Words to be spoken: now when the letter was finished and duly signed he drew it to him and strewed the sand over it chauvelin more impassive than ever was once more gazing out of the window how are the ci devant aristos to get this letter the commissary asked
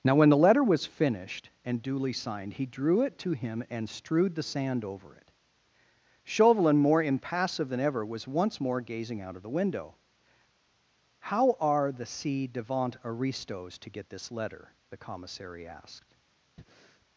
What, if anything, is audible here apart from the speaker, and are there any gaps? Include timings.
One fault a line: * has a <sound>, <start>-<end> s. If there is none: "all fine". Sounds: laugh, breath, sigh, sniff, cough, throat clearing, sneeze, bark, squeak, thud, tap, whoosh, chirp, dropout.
* has a breath, 16.6-17.1 s